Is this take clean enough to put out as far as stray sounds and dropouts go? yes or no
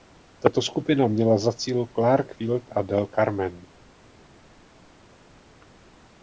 yes